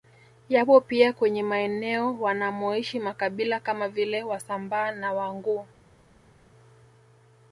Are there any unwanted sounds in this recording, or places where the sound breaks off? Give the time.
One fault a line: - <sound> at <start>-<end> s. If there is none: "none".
none